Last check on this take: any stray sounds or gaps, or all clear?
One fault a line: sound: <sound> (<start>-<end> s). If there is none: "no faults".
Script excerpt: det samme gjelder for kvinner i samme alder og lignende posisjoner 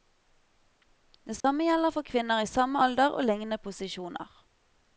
sound: dropout (1.4-1.4 s)